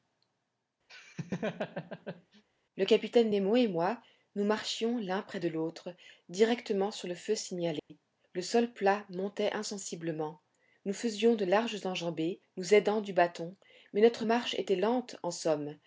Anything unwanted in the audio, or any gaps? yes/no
yes